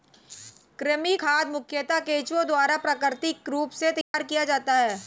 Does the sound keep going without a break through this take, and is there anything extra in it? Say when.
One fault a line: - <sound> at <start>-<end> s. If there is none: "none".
- dropout at 4.0-4.1 s